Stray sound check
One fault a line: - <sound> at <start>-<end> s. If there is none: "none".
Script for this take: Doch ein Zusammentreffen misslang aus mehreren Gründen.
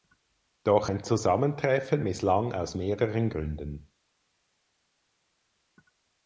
none